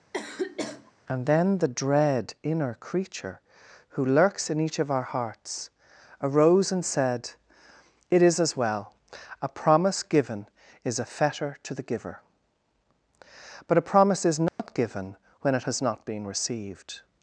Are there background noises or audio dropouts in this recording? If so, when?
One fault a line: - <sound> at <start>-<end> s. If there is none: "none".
- sniff at 0.1-0.9 s
- dropout at 14.5-14.6 s